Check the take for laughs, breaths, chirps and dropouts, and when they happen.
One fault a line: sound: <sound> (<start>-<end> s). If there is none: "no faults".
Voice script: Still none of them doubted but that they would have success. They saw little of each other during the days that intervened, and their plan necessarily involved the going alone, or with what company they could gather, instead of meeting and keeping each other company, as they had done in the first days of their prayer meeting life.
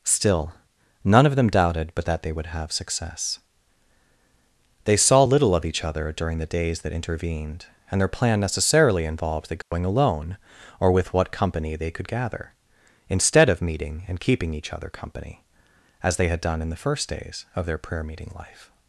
sound: dropout (9.6-9.7 s)